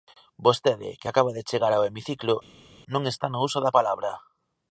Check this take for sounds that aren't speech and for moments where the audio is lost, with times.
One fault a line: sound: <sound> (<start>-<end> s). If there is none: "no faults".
no faults